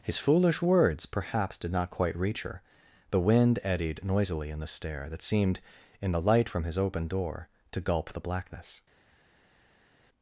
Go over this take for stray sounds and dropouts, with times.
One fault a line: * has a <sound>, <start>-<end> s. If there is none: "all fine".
all fine